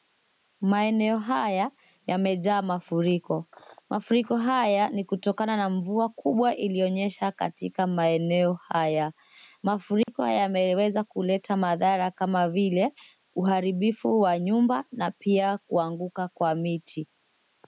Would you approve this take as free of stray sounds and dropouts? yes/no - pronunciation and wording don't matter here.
no